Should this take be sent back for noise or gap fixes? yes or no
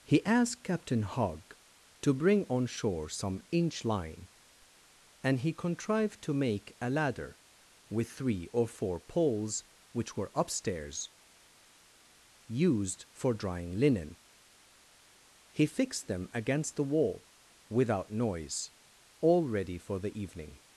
no